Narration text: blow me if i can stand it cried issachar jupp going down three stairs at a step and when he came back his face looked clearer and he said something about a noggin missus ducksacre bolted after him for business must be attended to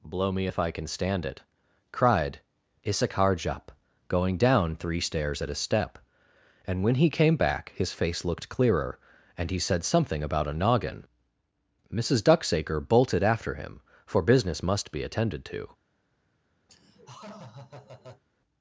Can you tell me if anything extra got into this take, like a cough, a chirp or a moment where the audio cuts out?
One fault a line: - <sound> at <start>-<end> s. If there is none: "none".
- laugh at 16.7-18.2 s